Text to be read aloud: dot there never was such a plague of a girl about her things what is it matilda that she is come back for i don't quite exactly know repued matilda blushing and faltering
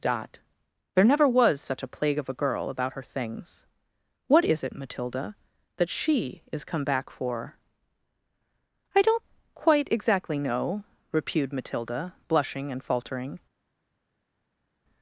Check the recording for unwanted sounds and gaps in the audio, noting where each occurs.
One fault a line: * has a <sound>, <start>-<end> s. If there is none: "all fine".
all fine